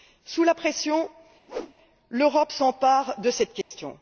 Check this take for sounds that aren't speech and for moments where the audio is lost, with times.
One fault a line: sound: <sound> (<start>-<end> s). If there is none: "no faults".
sound: whoosh (1.5-1.7 s)
sound: dropout (3.6-3.7 s)